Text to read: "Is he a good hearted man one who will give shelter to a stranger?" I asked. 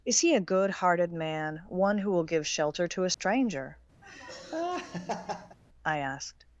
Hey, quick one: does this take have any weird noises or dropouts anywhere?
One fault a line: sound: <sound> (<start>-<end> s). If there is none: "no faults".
sound: dropout (3.1-3.2 s)
sound: laugh (4.0-5.6 s)